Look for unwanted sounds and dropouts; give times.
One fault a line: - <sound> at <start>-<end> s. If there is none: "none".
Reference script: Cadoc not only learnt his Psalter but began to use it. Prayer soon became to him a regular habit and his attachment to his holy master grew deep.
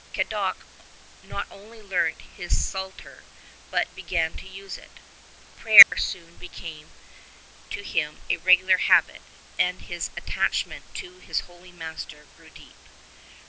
- dropout at 5.8-5.9 s